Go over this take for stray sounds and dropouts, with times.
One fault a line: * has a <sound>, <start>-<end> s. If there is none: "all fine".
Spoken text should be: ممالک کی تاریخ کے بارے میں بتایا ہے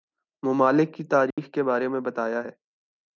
* has a dropout, 1.3-1.4 s